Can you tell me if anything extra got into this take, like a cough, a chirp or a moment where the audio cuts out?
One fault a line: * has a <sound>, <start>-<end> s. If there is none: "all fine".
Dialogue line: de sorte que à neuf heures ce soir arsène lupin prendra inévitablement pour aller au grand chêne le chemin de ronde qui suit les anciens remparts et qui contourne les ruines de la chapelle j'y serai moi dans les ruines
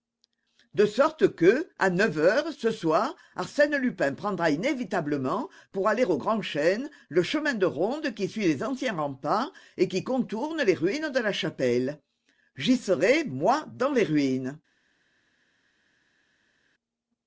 all fine